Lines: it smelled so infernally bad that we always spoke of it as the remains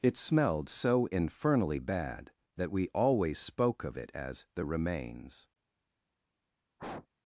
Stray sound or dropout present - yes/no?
yes